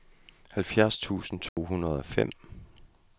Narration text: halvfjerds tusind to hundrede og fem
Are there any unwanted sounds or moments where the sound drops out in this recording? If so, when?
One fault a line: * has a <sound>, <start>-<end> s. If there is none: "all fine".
* has a dropout, 1.5-1.6 s